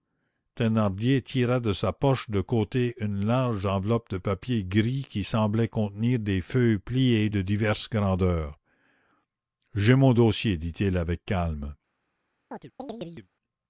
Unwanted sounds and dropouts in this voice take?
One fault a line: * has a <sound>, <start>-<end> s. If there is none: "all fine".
* has a chirp, 12.5-13.3 s